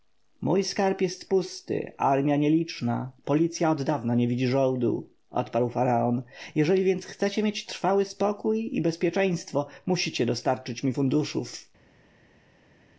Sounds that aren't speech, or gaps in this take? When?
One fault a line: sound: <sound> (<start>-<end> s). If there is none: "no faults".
no faults